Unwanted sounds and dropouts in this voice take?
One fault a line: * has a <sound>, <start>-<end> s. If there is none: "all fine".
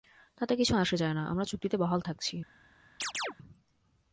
* has a chirp, 3.0-3.3 s